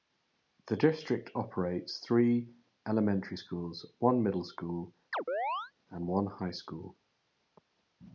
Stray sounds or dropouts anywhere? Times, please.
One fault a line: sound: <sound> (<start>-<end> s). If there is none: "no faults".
sound: chirp (5.1-5.7 s)